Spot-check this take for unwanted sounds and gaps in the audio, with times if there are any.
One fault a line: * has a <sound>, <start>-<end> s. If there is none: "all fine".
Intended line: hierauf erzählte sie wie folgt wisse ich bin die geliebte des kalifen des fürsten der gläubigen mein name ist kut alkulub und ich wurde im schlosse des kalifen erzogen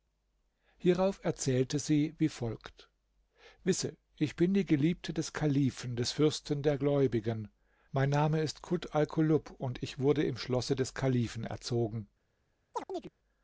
* has a chirp, 12.7-13.1 s